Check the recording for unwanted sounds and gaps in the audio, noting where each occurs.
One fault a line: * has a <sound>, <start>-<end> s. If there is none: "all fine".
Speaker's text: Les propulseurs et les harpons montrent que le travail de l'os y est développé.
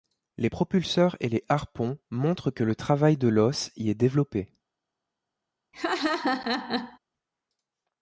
* has a laugh, 5.7-7.0 s